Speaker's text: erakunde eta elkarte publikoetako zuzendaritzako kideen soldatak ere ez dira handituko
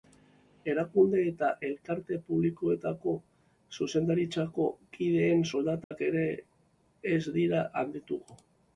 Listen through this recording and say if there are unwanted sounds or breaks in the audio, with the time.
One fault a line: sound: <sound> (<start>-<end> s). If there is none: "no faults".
sound: dropout (5.8-5.9 s)